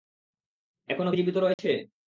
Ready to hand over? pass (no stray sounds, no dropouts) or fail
fail